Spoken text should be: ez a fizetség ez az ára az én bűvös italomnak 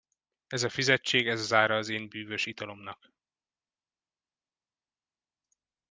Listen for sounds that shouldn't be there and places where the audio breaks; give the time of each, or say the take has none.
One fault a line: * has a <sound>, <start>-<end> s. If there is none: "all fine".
all fine